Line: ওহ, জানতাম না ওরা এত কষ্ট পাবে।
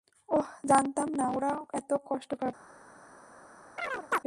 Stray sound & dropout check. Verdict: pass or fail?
fail